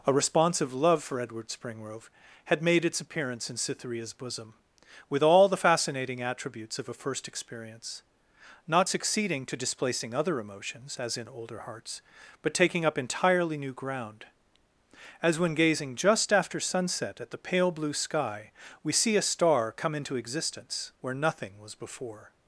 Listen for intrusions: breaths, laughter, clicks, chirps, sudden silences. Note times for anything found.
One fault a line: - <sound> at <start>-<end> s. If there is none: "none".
none